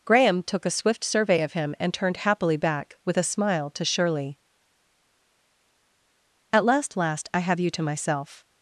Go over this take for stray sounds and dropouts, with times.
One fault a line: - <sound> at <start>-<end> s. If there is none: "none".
none